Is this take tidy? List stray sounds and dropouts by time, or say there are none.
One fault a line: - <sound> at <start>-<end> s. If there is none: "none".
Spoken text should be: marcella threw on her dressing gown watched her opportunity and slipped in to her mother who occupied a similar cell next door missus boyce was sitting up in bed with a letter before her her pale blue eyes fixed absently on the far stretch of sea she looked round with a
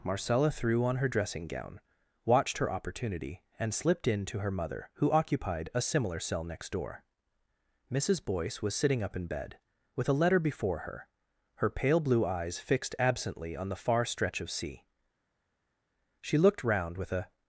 none